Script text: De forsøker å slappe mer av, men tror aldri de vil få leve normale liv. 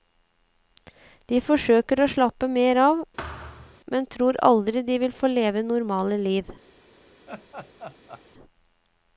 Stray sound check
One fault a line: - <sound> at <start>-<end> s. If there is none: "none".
- thud at 3.2-3.8 s
- laugh at 7.3-8.2 s